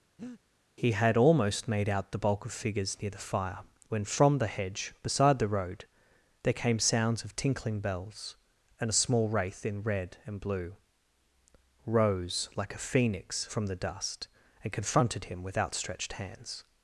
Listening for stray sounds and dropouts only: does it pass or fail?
fail